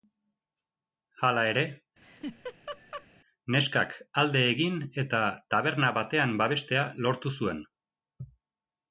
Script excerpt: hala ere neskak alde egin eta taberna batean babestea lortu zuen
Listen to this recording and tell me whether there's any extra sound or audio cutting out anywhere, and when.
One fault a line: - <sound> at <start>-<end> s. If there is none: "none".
- laugh at 2.0-3.1 s